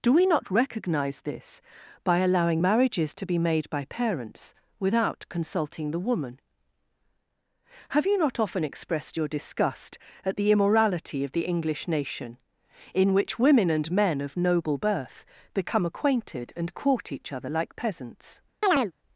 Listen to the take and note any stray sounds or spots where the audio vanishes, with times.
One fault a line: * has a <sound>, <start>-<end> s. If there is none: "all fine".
* has a chirp, 18.6-18.9 s